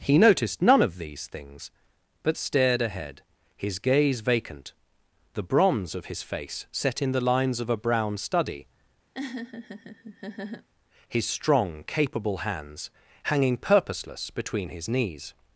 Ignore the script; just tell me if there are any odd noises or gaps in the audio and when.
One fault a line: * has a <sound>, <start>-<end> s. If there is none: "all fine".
* has a laugh, 9.1-10.7 s